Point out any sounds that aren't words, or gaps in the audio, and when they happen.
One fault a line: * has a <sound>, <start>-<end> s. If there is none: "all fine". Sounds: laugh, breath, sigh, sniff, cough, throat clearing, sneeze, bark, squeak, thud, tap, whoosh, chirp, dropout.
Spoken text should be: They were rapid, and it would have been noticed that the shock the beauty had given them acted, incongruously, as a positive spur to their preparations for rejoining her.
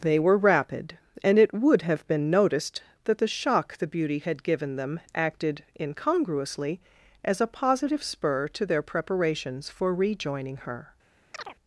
* has a chirp, 11.3-11.6 s